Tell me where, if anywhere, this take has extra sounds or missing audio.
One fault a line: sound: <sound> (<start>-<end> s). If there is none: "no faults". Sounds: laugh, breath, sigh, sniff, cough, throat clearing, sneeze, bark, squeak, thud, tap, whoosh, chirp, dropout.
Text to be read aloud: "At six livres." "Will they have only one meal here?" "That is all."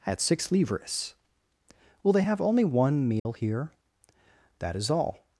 sound: dropout (3.2-3.3 s)